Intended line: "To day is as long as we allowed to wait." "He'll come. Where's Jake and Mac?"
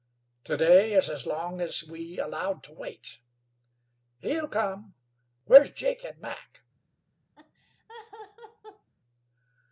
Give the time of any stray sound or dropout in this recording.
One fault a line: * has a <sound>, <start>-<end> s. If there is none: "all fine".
* has a laugh, 7.4-8.9 s